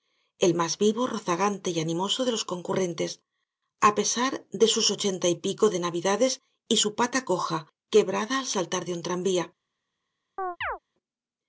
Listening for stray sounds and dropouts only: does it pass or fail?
fail